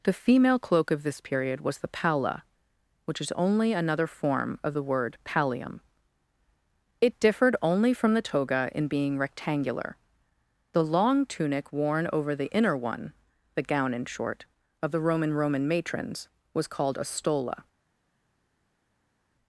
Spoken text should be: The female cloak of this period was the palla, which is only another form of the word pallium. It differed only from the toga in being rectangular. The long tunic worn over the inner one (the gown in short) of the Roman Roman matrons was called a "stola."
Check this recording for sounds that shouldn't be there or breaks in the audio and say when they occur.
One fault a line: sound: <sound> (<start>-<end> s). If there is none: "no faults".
no faults